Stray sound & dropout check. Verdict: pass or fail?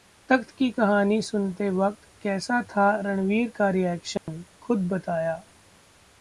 fail